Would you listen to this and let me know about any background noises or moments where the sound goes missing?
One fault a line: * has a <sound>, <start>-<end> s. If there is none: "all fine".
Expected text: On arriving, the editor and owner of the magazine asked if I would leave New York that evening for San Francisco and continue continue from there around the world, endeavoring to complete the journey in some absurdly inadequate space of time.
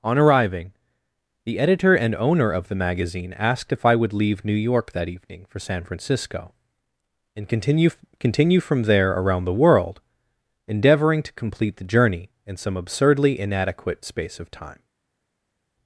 all fine